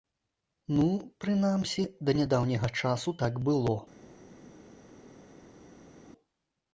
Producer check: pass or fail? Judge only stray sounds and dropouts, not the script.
pass